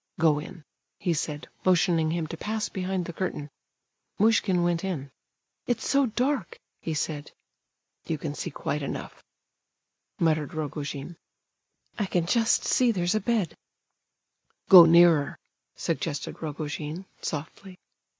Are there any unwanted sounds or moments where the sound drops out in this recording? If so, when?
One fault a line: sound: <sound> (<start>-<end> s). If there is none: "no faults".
no faults